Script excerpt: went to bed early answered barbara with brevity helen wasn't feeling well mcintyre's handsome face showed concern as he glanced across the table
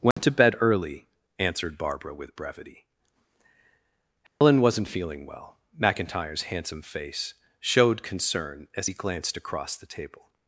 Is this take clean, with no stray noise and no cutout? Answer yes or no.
no